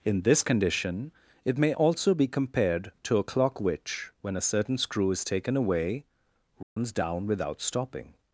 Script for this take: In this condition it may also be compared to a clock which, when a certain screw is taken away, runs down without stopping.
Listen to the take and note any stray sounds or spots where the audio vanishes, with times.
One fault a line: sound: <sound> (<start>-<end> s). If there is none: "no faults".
sound: dropout (6.6-6.8 s)